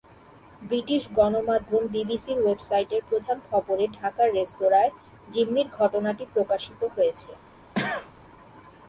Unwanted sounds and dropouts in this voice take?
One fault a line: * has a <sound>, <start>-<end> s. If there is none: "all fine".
* has a cough, 7.7-8.1 s